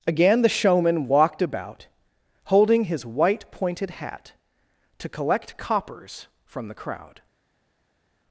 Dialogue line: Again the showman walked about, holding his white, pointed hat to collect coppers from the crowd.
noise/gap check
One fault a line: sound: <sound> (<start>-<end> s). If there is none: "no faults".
no faults